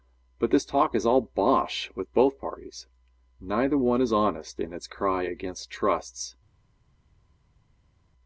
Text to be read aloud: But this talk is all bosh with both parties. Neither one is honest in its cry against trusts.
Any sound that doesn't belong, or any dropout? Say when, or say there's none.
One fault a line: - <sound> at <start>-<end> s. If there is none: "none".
none